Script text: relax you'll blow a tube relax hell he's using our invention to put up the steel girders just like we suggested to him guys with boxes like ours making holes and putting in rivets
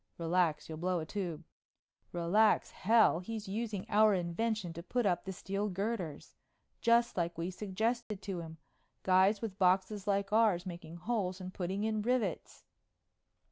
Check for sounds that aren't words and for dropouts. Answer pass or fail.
fail